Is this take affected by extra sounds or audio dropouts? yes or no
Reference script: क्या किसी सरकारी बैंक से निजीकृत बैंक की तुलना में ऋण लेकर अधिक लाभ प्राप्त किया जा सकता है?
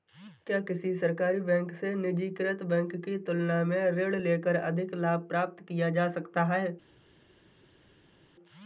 no